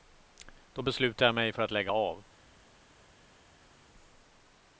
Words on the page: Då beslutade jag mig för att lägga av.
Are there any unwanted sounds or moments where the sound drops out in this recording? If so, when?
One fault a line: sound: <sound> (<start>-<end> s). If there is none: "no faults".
no faults